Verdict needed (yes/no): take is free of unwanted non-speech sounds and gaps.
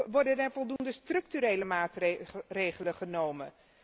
no